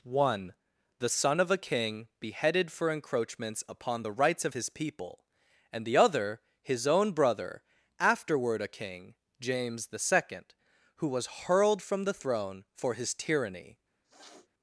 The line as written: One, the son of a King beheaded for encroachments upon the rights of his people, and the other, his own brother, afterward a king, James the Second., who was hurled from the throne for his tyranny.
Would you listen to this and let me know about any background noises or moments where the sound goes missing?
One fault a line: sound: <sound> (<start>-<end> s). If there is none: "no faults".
sound: sniff (14.0-14.5 s)